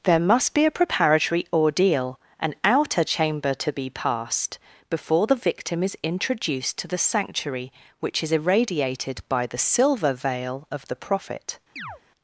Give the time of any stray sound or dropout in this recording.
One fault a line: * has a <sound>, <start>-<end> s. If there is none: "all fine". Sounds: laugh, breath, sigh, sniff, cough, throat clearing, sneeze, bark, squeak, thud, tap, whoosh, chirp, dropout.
* has a chirp, 11.8-12.0 s